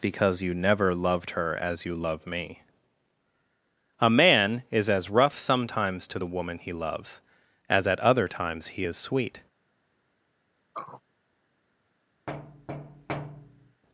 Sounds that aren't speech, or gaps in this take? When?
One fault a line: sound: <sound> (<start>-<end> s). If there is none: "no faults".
sound: throat clearing (10.7-11.0 s)
sound: thud (12.3-13.8 s)